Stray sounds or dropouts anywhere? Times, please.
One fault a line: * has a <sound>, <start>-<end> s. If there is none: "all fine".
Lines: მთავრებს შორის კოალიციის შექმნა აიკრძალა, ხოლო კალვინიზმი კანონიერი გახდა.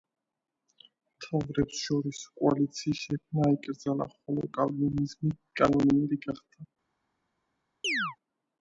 * has a chirp, 7.8-8.2 s